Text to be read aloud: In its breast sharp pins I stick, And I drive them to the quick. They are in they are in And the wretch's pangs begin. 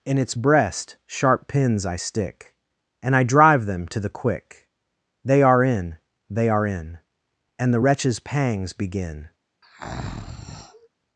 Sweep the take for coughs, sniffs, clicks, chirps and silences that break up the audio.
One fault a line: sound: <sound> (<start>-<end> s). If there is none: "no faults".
sound: breath (9.6-10.9 s)